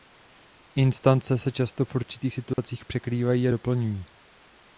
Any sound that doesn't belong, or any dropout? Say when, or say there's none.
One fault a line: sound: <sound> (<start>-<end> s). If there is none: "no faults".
sound: dropout (2.5-2.6 s)